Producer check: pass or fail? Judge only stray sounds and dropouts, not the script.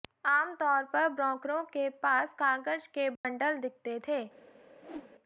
fail